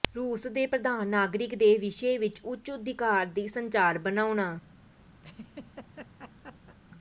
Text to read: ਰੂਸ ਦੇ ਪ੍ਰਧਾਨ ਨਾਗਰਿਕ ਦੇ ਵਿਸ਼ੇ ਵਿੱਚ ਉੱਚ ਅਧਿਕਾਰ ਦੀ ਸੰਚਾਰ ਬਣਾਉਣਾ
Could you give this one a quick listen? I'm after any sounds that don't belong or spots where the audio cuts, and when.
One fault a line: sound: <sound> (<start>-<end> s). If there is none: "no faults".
sound: laugh (5.2-6.8 s)